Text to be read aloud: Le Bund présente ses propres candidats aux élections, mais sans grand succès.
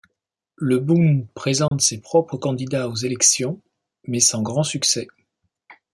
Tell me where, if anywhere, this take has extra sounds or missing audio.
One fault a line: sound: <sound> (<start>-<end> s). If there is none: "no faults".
sound: dropout (1.7-1.7 s)